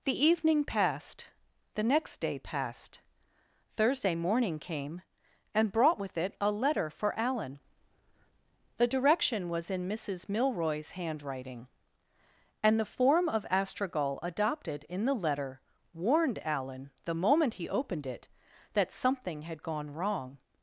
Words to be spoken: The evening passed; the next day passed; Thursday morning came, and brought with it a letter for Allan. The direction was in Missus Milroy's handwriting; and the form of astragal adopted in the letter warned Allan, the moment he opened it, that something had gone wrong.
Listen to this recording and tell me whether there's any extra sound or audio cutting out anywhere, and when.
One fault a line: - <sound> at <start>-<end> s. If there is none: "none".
none